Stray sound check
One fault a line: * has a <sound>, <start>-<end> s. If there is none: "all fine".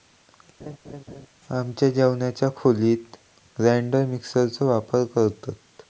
* has a laugh, 0.6-1.3 s